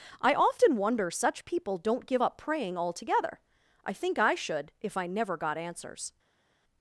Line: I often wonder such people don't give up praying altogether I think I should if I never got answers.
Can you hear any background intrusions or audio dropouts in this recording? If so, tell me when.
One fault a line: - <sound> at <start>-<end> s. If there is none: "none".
none